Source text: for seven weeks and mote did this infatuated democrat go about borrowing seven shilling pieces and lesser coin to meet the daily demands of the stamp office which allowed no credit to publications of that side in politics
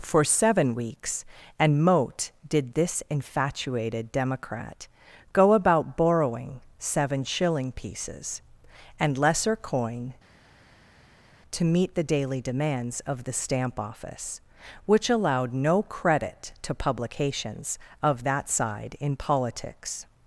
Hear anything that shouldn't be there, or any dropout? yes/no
no